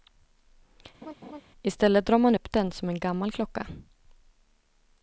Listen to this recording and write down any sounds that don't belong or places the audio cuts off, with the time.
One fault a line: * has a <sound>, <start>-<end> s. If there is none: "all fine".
* has a laugh, 1.0-1.4 s